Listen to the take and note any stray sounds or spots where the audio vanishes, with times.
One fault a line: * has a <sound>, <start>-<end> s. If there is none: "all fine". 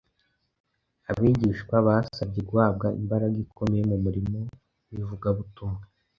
all fine